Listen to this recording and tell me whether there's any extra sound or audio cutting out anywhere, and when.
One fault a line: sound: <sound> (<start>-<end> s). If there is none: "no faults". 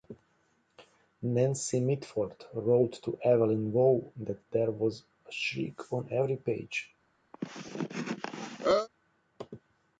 sound: cough (7.3-8.9 s)